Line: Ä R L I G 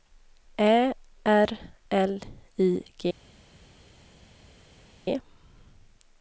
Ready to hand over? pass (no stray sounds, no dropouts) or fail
pass